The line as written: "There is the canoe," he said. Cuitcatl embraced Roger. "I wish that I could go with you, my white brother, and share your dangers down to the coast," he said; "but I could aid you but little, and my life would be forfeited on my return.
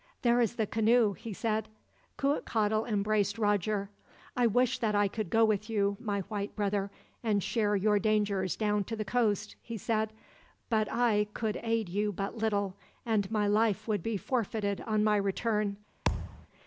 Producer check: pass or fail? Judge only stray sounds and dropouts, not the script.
fail